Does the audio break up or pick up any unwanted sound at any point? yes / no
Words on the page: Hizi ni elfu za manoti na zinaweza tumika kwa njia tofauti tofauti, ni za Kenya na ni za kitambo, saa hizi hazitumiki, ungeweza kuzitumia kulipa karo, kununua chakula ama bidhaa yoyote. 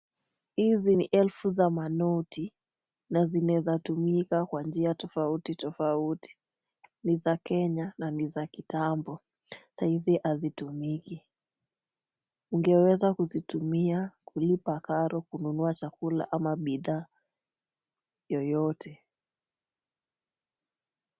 no